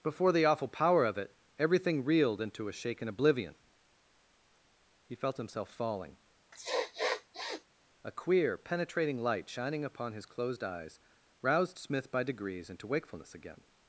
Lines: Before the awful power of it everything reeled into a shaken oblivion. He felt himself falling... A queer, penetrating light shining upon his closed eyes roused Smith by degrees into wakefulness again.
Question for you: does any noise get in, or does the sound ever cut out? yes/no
yes